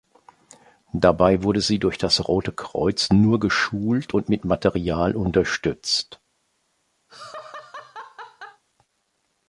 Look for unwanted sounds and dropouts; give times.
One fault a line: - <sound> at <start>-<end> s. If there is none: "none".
- laugh at 7.1-8.6 s